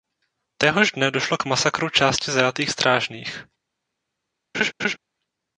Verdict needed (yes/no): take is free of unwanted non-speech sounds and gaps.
no